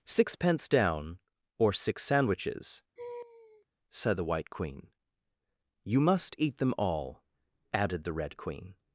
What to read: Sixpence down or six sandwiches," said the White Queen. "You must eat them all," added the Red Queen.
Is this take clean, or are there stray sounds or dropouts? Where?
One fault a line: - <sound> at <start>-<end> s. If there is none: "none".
- laugh at 3.0-3.7 s